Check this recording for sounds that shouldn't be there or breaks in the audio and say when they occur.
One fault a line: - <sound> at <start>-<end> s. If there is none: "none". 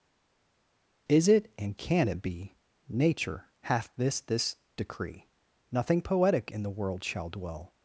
none